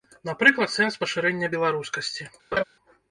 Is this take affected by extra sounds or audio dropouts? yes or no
yes